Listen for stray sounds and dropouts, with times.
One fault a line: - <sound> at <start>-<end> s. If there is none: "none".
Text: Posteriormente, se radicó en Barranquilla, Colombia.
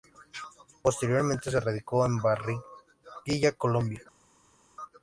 none